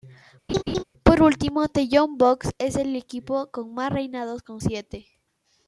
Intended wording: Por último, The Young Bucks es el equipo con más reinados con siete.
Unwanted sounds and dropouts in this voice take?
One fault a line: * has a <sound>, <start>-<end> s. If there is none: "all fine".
* has a laugh, 0.5-0.8 s